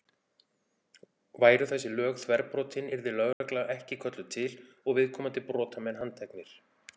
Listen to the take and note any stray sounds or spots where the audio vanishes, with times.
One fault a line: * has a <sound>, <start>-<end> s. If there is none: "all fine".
* has a dropout, 3.3-3.4 s